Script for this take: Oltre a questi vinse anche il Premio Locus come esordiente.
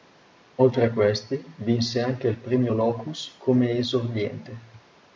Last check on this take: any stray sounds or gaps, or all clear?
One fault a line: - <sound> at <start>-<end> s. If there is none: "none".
none